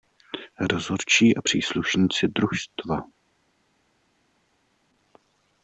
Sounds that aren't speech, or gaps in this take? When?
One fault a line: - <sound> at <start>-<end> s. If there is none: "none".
none